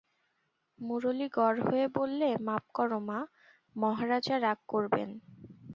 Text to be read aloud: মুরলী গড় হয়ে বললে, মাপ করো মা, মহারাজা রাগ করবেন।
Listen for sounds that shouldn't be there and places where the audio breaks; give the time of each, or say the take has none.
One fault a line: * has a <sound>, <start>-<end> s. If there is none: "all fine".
all fine